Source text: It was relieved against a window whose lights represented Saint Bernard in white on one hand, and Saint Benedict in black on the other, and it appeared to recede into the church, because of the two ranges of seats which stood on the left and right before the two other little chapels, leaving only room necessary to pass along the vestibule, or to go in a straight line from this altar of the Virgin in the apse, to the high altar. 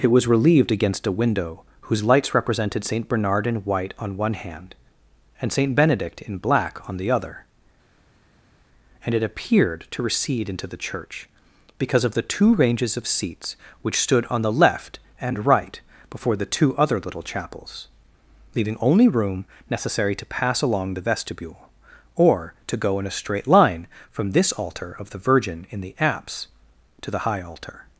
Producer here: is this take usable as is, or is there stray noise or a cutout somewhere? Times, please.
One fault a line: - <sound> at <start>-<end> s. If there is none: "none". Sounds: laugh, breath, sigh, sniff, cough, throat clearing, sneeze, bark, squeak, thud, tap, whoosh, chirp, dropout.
none